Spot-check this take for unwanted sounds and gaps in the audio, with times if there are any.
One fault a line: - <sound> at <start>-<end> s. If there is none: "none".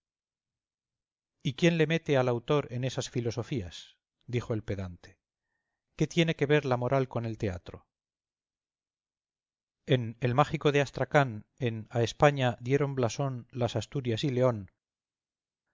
none